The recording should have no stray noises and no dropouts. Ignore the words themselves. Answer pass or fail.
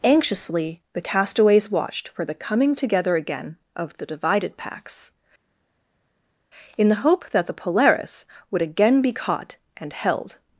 pass